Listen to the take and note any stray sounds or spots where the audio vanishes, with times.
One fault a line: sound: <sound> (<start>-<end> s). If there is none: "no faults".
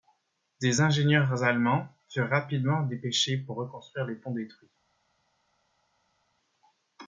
no faults